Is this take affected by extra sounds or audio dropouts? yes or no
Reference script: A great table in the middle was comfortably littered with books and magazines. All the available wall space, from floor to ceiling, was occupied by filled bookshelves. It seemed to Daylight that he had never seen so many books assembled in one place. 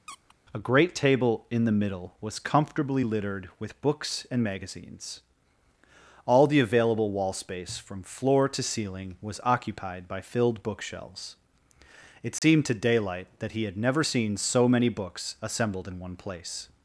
yes